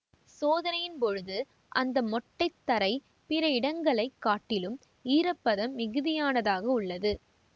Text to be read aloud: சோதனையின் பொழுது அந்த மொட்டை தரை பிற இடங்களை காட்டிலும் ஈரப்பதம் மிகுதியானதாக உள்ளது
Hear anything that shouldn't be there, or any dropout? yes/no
no